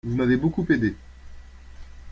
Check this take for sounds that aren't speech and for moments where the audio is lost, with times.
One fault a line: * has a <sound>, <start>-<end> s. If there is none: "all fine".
all fine